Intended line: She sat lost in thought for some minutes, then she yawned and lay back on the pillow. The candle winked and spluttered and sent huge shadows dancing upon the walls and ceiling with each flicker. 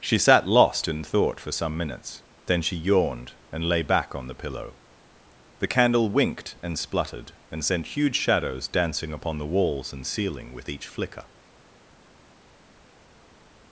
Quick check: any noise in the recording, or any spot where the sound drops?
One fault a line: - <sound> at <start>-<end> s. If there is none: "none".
none